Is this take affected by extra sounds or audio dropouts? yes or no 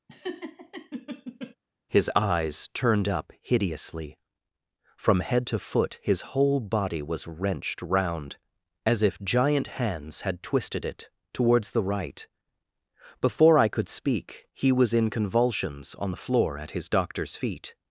yes